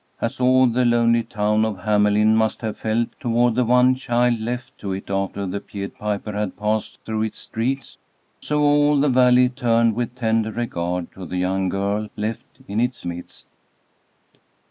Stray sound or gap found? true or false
false